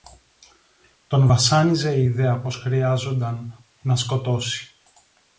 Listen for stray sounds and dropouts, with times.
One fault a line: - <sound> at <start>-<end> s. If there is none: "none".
none